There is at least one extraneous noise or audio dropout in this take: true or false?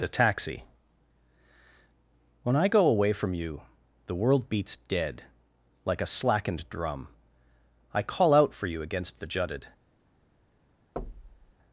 true